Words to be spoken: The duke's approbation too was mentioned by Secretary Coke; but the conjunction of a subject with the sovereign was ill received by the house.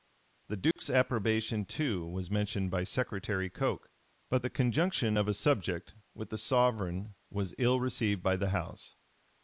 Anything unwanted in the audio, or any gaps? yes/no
yes